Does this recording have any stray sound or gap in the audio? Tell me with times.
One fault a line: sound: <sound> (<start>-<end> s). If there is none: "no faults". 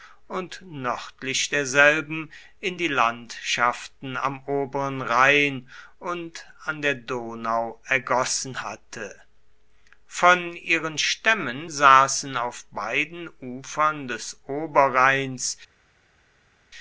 no faults